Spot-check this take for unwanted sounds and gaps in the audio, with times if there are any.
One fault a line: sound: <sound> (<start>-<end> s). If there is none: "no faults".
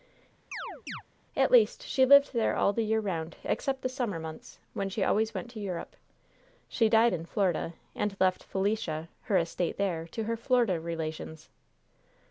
sound: chirp (0.5-1.0 s)